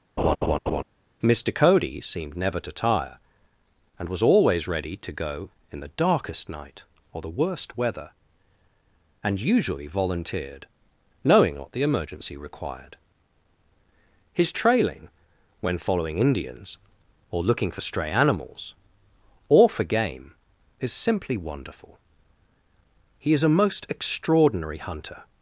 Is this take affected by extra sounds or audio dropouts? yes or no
yes